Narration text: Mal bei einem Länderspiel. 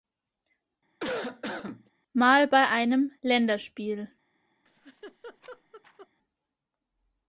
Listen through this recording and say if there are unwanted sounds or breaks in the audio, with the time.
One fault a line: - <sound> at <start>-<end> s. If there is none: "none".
- cough at 1.0-1.9 s
- laugh at 4.6-6.1 s